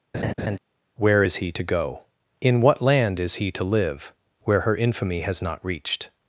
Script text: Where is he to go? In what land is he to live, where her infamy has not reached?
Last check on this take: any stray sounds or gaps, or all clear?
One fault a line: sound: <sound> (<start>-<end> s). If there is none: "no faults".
sound: laugh (0.1-0.6 s)